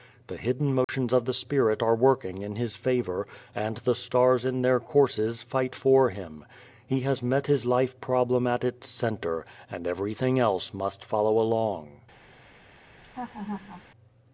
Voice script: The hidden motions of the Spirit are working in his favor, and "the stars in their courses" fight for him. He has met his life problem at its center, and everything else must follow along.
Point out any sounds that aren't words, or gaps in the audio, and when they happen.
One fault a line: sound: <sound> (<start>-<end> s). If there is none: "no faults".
sound: dropout (0.8-0.9 s)
sound: laugh (13.0-13.8 s)